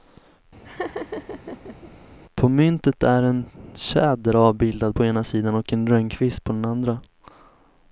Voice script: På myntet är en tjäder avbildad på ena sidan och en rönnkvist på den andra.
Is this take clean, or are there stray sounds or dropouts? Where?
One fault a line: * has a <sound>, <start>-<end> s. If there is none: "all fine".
* has a laugh, 0.6-1.9 s